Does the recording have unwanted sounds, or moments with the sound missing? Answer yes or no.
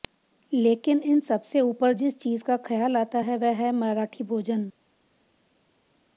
no